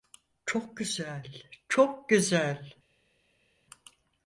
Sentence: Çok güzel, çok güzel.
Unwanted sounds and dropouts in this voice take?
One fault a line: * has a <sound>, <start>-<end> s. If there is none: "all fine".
all fine